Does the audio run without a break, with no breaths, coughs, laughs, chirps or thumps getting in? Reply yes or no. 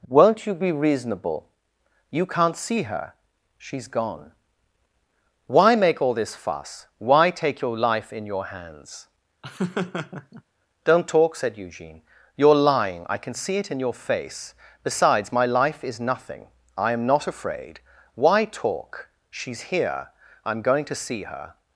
no